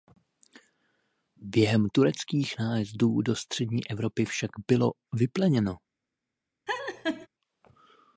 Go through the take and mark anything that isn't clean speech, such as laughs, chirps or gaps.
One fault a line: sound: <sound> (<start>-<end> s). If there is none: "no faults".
sound: laugh (6.7-7.3 s)